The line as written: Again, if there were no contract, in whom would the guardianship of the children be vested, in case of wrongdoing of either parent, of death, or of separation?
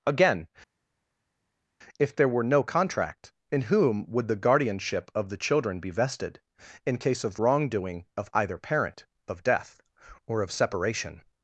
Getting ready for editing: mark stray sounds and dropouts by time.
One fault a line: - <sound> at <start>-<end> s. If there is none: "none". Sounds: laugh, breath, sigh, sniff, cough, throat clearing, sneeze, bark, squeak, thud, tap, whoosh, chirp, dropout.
none